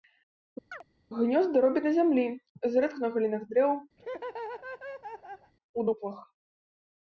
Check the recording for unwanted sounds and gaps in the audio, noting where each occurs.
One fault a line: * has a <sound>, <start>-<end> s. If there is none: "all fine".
* has a chirp, 0.7-0.8 s
* has a laugh, 4.0-5.5 s